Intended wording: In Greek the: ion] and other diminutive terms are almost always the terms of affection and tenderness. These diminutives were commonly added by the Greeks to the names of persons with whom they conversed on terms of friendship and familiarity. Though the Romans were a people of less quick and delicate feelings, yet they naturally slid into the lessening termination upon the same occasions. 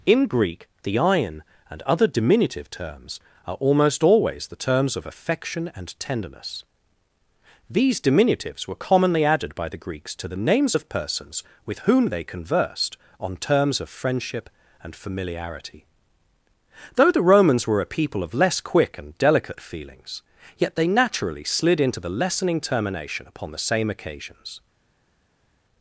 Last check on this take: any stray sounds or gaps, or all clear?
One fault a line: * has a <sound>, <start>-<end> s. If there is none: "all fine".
all fine